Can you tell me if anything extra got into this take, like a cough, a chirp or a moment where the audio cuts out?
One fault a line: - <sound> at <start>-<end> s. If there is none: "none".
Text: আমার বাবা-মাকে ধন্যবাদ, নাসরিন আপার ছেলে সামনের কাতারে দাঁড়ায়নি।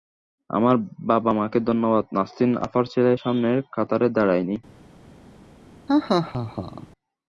- laugh at 5.9-6.9 s